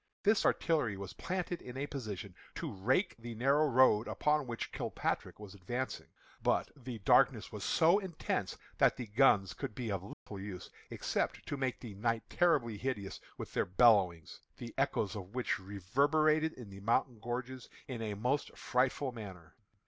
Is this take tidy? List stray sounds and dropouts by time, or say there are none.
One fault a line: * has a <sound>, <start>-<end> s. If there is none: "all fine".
* has a dropout, 10.1-10.3 s